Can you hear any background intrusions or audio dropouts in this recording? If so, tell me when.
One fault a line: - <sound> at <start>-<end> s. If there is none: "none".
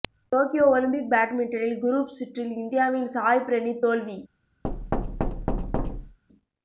- thud at 4.6-6.2 s